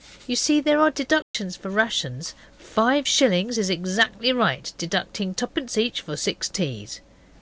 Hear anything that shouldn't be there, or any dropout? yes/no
yes